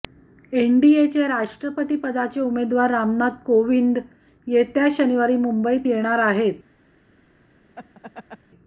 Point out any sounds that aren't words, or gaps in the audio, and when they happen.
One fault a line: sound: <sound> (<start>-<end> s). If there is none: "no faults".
sound: laugh (7.8-8.4 s)